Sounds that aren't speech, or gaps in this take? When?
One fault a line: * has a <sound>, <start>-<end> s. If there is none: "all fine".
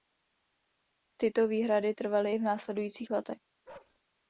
* has a bark, 3.7-4.0 s